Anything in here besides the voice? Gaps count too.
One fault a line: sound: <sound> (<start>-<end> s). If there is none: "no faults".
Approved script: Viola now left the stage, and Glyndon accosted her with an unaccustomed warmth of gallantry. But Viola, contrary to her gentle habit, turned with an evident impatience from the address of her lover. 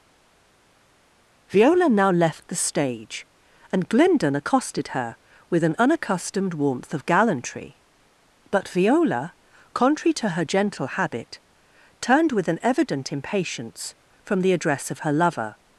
no faults